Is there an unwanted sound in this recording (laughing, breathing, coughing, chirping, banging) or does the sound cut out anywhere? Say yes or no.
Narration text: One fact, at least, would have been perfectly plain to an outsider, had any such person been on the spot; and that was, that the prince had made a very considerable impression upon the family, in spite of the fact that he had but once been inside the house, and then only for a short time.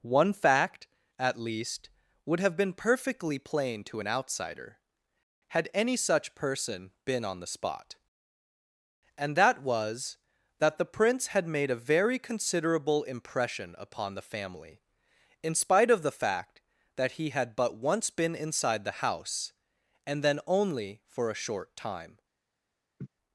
yes